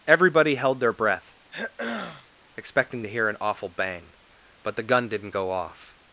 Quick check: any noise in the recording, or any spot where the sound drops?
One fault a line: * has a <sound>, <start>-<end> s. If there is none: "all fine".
* has a throat clearing, 1.5-2.3 s